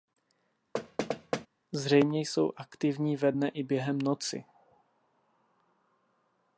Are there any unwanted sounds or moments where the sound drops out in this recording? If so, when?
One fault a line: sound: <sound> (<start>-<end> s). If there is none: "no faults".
sound: thud (0.7-1.5 s)